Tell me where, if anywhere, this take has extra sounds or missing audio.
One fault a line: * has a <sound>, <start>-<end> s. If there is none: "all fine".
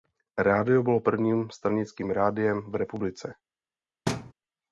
* has a thud, 4.1-4.3 s